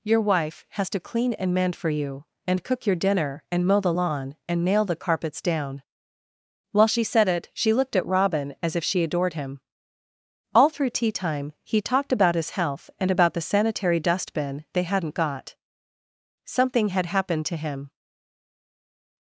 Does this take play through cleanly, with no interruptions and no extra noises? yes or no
yes